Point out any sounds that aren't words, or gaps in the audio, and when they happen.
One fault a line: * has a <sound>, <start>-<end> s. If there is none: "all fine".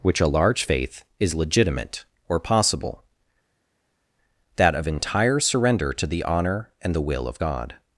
all fine